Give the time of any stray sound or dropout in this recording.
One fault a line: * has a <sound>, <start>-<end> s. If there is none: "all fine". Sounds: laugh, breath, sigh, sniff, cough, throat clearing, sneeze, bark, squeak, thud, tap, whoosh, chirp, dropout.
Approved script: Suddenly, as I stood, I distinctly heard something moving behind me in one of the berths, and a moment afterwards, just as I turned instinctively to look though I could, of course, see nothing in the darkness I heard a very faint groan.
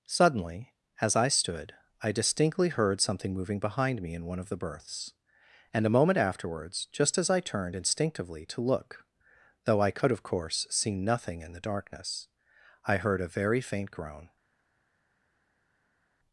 all fine